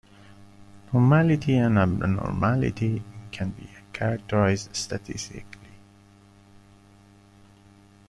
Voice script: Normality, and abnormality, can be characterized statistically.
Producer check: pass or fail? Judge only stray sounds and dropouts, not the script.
pass